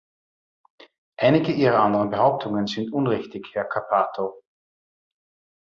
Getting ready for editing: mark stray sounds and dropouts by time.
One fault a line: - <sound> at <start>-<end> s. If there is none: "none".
none